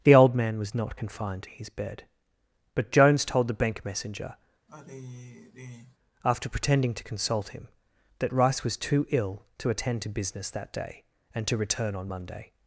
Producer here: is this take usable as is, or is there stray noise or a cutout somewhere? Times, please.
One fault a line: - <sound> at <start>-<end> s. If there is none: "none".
- sigh at 4.7-6.0 s